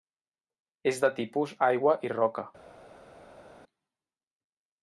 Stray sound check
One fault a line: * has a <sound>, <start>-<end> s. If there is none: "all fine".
all fine